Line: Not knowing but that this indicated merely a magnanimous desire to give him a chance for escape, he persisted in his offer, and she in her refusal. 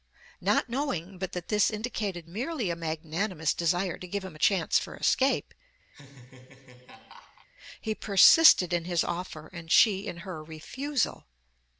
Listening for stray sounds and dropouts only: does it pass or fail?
fail